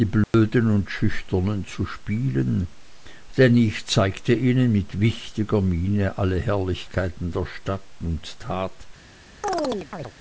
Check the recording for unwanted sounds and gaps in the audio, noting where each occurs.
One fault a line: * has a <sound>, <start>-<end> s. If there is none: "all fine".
* has a dropout, 0.2-0.3 s
* has a chirp, 9.4-10.1 s